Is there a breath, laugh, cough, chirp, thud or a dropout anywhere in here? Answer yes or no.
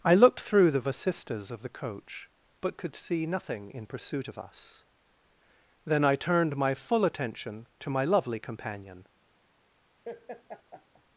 yes